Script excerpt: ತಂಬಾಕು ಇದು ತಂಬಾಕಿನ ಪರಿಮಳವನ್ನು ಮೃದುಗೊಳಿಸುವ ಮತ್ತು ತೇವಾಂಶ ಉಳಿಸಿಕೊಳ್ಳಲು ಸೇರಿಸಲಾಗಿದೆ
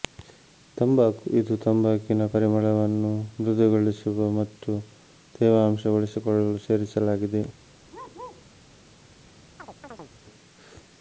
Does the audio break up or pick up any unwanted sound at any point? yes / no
yes